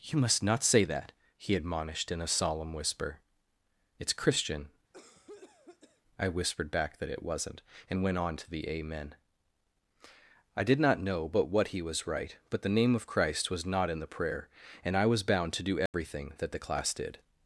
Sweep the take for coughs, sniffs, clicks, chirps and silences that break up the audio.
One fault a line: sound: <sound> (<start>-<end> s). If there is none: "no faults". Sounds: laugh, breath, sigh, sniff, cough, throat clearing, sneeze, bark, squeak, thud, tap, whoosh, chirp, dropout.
sound: cough (4.9-6.0 s)
sound: dropout (15.9-15.9 s)